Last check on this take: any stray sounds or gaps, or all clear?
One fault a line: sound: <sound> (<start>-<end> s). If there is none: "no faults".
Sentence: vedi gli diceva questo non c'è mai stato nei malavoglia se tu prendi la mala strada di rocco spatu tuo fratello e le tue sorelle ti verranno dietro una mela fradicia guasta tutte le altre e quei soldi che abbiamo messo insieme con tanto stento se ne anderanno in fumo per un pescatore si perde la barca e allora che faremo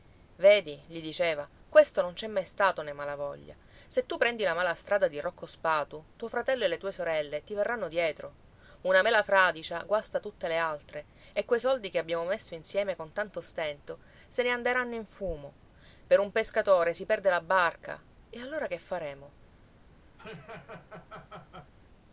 sound: laugh (20.2-21.7 s)